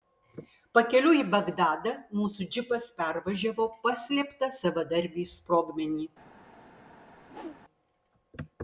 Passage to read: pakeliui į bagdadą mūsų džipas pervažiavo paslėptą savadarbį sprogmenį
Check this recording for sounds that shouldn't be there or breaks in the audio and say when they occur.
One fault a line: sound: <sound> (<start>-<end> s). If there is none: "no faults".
sound: whoosh (7.2-7.6 s)